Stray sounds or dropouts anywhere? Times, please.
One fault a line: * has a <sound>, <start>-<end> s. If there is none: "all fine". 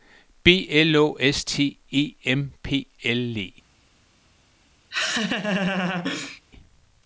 * has a laugh, 4.9-6.4 s